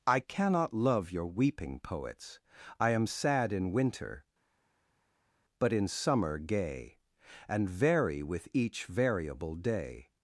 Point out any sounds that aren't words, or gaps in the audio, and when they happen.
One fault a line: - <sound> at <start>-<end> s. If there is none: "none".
none